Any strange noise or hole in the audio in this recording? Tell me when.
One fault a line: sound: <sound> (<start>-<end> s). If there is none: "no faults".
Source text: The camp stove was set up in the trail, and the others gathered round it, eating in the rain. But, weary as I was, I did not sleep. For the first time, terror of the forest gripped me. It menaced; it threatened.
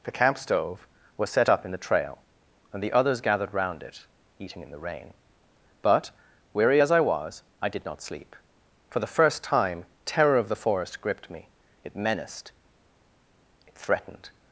no faults